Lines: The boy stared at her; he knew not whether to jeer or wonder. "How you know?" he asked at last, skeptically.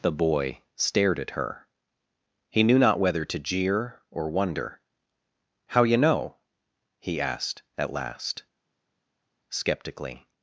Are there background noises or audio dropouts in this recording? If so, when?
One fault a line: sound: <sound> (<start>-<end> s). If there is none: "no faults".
no faults